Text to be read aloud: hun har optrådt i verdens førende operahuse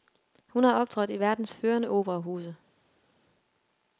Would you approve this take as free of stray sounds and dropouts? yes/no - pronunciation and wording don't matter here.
yes